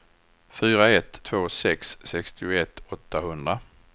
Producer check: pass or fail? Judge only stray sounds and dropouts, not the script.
pass